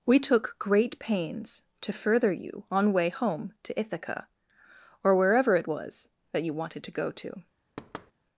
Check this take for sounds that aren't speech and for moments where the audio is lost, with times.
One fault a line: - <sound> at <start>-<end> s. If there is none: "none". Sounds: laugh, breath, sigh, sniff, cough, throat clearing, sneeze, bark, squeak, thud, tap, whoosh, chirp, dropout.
- thud at 7.8-8.1 s